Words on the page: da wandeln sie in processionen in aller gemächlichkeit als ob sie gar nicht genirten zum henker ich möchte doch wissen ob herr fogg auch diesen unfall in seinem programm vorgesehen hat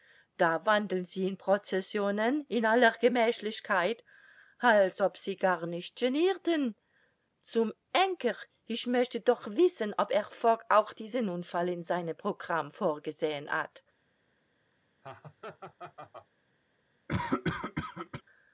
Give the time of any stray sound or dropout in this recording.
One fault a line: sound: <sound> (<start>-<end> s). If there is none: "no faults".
sound: laugh (15.0-16.3 s)
sound: cough (17.1-18.2 s)